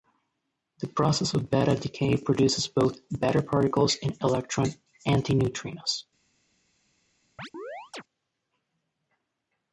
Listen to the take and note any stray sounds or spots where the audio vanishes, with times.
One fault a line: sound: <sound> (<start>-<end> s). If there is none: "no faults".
sound: chirp (7.4-8.0 s)